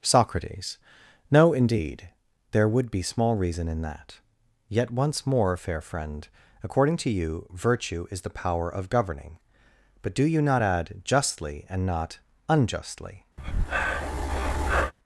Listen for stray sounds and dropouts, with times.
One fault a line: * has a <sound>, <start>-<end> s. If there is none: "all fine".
* has a breath, 13.4-14.9 s